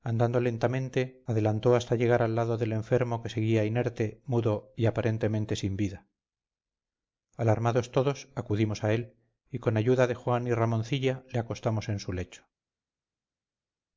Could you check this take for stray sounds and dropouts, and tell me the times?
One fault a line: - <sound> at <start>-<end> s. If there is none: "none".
none